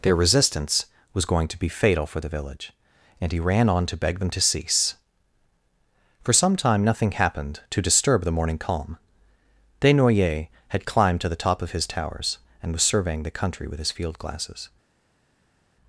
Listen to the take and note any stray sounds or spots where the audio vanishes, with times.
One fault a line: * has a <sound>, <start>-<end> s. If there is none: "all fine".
all fine